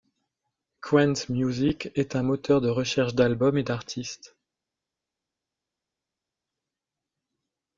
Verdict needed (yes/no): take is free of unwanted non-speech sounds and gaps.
yes